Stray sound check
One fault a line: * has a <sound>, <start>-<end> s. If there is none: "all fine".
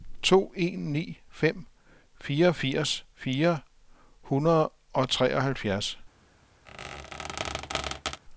* has a squeak, 6.7-8.2 s